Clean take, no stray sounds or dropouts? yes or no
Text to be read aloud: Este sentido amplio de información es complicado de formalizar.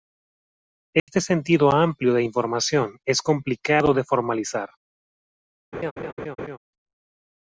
no